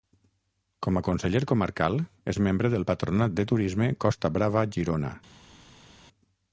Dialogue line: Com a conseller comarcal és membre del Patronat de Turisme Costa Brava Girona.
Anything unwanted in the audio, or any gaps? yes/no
no